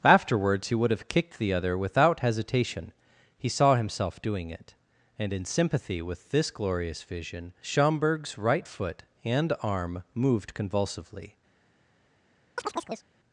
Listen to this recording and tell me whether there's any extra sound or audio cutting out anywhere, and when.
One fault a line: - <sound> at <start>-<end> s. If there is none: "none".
- chirp at 12.6-13.1 s